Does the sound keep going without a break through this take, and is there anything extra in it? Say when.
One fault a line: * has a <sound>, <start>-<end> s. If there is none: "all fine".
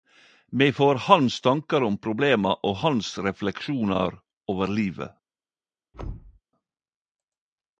* has a thud, 5.9-6.4 s